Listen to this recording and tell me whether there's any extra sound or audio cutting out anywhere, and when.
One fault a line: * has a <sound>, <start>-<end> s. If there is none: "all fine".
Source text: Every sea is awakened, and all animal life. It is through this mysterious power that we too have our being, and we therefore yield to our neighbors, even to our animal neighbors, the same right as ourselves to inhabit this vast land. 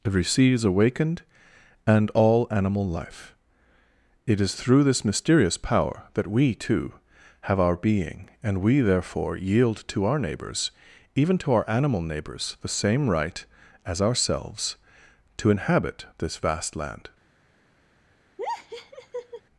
* has a laugh, 18.4-19.4 s